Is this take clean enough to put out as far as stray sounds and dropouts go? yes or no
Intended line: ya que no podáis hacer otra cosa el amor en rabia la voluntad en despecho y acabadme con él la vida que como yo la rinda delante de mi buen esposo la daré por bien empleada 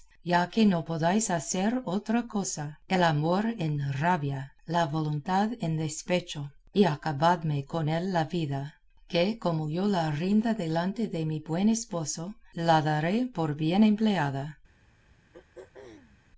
no